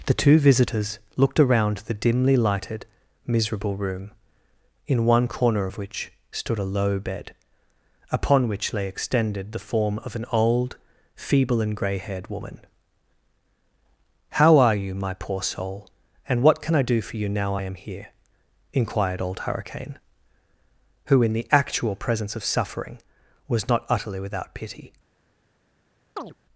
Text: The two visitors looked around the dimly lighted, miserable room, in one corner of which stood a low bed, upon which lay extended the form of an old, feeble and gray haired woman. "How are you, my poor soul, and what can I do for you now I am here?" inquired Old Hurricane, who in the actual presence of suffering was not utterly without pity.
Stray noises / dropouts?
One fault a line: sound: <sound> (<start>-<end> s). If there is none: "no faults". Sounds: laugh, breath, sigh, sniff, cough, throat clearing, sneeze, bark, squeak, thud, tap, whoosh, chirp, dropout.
sound: chirp (26.2-26.3 s)